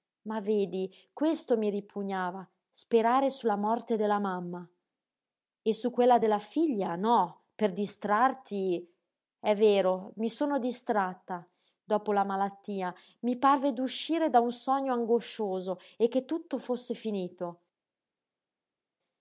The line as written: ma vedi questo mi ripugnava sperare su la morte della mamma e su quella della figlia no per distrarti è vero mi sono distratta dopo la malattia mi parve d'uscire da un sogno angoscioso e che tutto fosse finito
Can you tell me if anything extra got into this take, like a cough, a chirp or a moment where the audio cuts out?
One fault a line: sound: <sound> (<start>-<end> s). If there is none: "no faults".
no faults